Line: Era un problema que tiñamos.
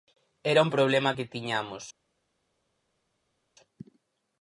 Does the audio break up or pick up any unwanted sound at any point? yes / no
no